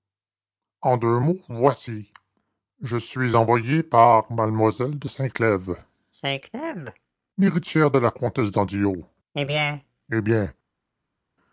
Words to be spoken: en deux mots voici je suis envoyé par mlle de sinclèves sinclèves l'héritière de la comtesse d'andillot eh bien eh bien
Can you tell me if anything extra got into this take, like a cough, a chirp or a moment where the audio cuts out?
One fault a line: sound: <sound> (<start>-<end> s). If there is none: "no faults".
no faults